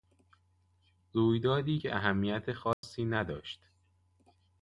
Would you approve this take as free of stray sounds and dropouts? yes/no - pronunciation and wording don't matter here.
no